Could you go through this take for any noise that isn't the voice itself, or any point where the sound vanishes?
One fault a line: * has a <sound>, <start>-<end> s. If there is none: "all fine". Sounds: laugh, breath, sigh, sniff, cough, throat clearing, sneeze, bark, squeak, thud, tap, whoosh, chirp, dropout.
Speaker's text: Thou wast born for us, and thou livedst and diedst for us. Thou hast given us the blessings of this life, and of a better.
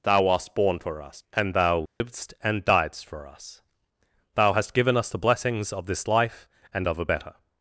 * has a dropout, 1.9-2.0 s